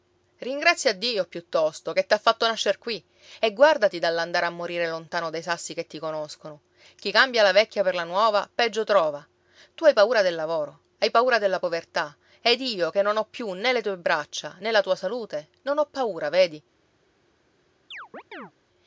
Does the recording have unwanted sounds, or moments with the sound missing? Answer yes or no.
yes